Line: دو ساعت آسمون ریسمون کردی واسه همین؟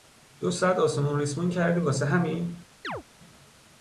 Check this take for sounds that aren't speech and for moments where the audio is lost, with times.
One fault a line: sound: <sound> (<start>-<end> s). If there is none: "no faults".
sound: chirp (2.8-3.0 s)